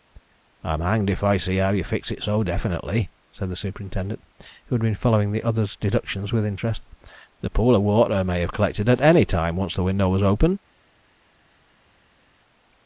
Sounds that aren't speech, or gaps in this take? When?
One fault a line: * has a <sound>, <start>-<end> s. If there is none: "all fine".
all fine